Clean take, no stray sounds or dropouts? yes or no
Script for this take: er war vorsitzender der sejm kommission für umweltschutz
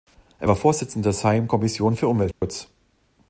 no